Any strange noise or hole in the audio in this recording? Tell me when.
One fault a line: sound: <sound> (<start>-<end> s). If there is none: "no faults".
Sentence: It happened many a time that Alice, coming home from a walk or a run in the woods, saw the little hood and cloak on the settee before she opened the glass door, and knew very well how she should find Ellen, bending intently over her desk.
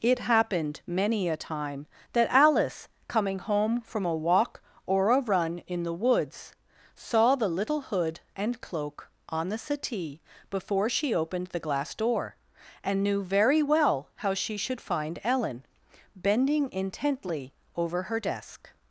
no faults